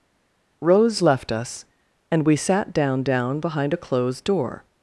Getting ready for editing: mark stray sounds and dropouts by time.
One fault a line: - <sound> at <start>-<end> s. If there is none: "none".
none